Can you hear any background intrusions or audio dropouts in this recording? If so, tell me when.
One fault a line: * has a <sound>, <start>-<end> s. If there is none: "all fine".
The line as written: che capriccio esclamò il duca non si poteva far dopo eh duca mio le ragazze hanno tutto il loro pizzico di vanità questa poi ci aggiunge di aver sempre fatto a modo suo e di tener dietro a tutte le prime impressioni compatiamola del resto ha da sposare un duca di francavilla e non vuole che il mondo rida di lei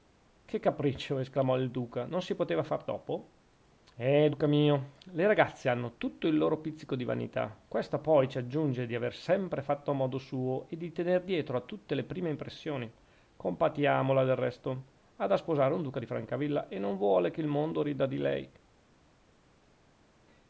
all fine